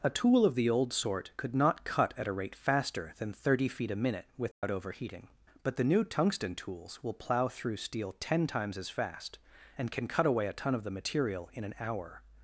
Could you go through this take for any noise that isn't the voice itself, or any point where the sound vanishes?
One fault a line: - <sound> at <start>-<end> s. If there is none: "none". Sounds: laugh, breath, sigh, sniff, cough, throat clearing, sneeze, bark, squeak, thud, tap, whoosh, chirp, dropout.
- dropout at 4.5-4.6 s